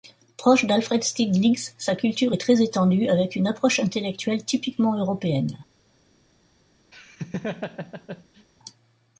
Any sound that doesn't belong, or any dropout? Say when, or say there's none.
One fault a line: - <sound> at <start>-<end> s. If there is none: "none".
- laugh at 6.9-8.5 s